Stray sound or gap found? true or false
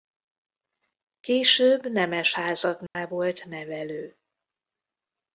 true